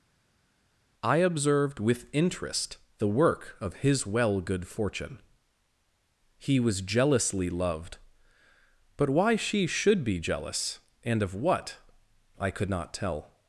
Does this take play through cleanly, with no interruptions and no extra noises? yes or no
yes